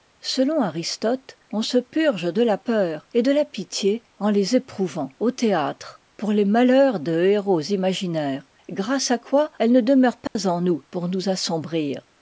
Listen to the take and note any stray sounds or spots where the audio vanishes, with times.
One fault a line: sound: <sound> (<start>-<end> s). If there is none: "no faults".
sound: dropout (10.3-10.4 s)